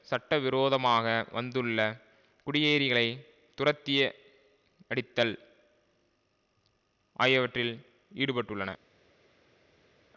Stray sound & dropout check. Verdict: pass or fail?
pass